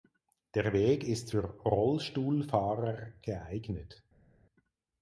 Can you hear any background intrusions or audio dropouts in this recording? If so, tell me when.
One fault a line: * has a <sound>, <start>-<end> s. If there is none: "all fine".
all fine